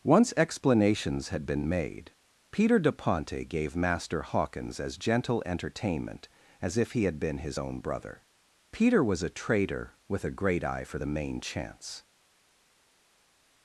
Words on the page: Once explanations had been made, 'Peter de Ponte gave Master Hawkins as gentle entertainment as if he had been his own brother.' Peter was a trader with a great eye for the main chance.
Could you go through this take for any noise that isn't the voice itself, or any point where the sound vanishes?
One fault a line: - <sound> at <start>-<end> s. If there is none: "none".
none